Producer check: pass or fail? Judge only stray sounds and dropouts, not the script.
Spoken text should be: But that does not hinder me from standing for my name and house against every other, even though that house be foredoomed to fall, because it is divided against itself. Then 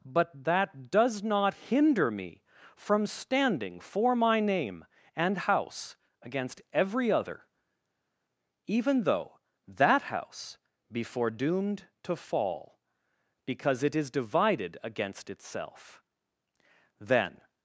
pass